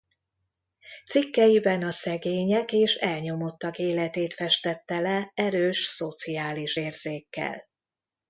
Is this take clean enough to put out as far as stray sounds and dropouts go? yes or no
yes